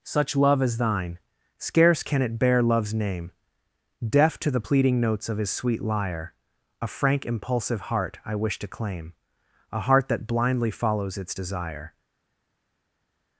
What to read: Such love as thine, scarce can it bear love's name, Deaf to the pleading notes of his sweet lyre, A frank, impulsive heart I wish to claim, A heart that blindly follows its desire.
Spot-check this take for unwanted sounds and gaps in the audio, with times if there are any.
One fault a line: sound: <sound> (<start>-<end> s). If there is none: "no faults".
no faults